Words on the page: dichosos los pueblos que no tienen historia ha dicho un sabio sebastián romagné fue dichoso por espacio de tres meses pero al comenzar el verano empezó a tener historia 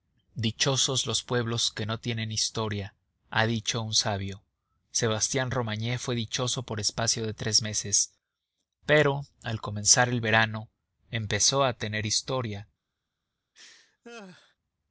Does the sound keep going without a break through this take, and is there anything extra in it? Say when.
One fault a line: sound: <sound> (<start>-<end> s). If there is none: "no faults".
sound: laugh (13.5-14.6 s)